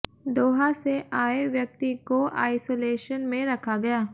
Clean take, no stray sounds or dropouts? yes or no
yes